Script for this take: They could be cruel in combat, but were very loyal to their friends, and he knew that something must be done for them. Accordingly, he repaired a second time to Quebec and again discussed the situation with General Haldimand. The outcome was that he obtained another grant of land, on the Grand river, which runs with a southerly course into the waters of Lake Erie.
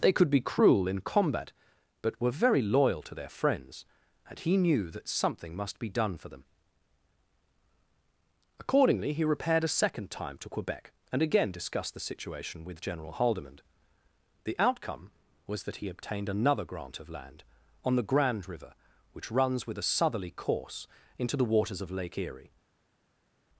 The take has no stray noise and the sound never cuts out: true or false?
true